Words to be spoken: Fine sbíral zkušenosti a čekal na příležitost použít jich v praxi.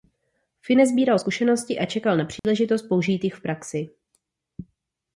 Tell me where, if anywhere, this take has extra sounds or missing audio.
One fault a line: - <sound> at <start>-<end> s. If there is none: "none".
- dropout at 2.4-2.4 s